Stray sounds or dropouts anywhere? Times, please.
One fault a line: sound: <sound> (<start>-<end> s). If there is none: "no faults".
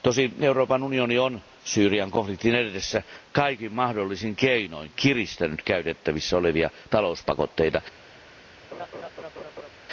sound: laugh (8.7-9.7 s)